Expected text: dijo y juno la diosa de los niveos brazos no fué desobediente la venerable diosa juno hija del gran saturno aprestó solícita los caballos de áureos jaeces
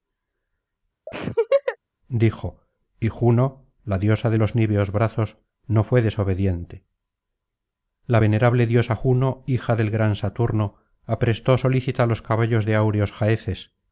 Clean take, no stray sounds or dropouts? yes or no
no